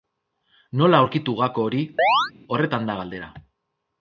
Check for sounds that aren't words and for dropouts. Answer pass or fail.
fail